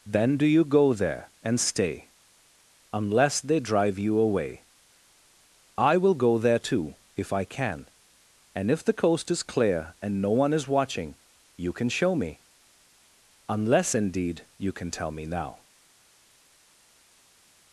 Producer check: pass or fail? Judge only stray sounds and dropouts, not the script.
pass